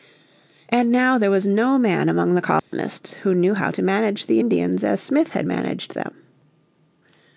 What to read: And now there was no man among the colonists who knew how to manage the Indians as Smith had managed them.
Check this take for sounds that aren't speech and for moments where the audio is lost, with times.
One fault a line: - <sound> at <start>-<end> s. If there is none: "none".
- dropout at 2.6-2.7 s